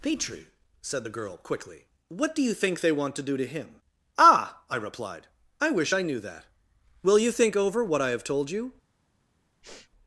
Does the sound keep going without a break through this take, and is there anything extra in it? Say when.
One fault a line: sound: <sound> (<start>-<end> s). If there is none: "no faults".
sound: sniff (9.6-9.9 s)